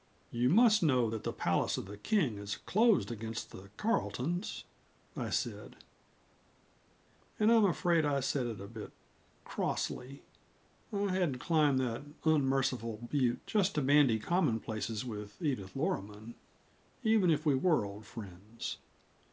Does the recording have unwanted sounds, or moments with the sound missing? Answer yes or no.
no